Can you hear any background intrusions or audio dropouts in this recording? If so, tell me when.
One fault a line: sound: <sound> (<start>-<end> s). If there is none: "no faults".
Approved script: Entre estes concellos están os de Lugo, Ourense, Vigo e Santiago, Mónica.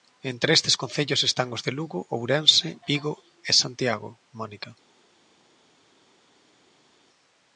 no faults